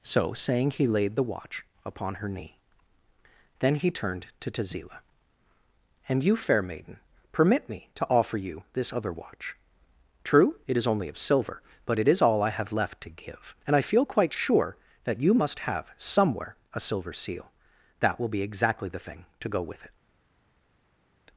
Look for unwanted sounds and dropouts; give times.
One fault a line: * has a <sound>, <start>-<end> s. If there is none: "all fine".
all fine